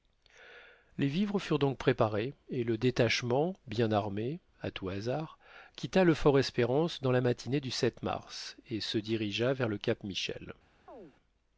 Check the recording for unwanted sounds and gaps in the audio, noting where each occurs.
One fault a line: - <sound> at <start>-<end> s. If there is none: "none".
- chirp at 10.9-11.1 s